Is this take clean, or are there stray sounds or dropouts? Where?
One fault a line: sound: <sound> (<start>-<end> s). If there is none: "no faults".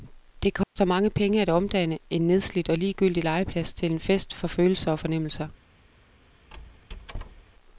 sound: dropout (0.6-0.8 s)
sound: squeak (6.5-7.5 s)